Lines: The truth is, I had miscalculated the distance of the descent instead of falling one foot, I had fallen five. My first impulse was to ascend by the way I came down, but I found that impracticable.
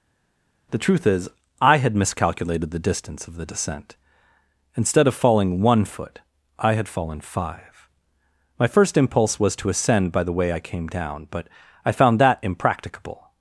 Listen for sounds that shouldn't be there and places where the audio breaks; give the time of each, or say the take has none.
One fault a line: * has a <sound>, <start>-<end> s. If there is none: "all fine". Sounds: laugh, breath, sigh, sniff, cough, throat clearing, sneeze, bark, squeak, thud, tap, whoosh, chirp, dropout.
all fine